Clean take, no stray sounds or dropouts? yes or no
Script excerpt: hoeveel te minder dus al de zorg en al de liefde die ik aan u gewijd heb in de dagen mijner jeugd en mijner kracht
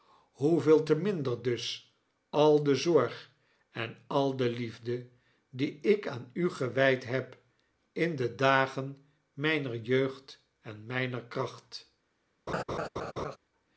no